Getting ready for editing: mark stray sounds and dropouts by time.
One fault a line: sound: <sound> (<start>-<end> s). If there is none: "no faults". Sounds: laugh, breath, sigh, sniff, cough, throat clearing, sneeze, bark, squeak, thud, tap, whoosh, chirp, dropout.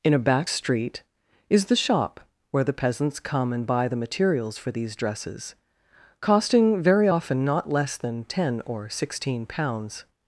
no faults